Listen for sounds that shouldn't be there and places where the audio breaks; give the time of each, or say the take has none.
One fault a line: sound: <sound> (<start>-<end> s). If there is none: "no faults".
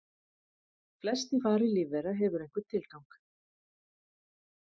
no faults